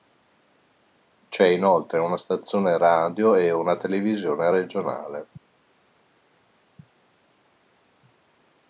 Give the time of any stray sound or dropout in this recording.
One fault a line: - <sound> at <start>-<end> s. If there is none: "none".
none